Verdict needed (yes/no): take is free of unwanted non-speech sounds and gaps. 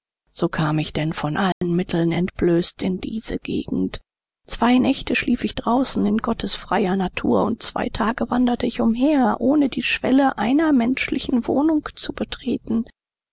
no